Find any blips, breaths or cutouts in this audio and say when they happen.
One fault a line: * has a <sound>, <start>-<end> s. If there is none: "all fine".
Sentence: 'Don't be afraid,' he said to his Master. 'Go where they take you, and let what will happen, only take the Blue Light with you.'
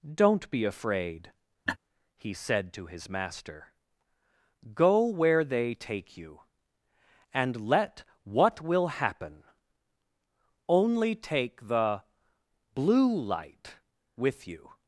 * has a laugh, 1.7-1.8 s